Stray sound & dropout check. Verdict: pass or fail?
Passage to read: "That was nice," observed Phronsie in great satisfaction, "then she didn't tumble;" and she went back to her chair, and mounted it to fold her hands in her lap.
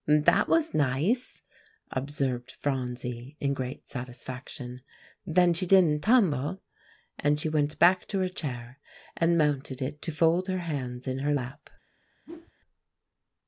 fail